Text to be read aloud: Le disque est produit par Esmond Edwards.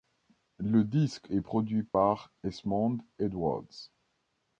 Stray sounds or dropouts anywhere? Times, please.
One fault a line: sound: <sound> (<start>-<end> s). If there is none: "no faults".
sound: dropout (1.9-1.9 s)